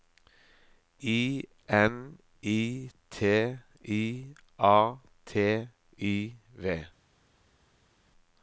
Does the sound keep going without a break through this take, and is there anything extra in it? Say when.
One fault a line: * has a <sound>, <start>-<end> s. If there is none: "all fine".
all fine